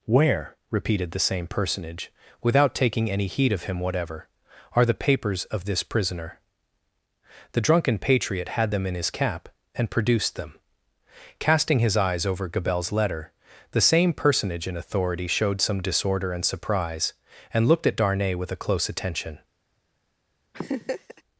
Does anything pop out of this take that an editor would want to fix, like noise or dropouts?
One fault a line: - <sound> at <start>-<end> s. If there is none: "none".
- laugh at 20.5-21.2 s